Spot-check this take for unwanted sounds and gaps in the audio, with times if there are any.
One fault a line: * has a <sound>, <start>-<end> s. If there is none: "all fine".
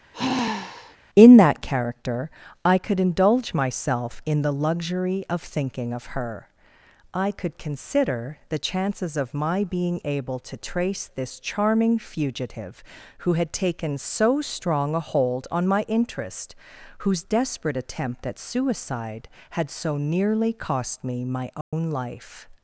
* has a sigh, 0.1-1.0 s
* has a dropout, 21.6-21.7 s